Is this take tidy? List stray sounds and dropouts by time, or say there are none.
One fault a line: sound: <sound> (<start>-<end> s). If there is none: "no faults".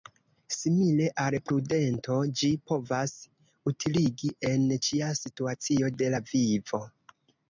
no faults